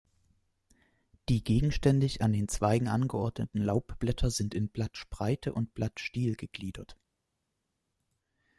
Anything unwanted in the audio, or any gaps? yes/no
no